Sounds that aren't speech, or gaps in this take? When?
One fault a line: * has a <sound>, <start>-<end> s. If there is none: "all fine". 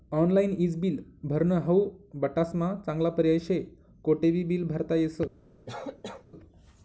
* has a cough, 5.7-6.3 s